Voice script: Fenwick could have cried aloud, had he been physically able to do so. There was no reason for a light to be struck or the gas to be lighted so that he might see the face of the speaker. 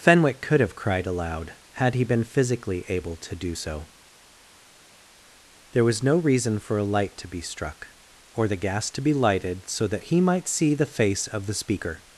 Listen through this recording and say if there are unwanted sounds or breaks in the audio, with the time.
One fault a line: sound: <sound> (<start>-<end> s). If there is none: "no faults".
no faults